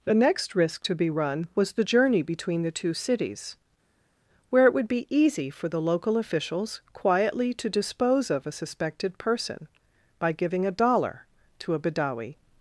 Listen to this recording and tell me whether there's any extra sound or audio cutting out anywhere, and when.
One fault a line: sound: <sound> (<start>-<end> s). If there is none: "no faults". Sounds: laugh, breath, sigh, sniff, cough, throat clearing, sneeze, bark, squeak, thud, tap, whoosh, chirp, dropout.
no faults